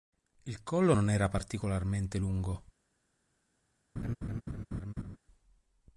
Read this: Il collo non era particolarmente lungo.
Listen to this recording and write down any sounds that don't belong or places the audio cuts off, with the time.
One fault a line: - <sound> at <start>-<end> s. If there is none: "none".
- laugh at 4.0-5.2 s